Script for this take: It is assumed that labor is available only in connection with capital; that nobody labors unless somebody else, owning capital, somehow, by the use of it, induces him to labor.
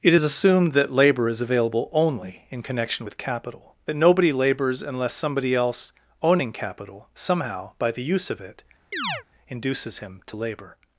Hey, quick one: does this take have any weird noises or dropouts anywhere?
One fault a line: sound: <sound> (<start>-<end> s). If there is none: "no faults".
sound: chirp (8.9-9.2 s)